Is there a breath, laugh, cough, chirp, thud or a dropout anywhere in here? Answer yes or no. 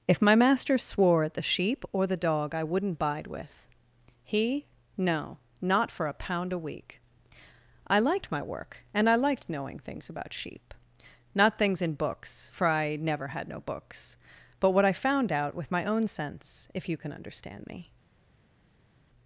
no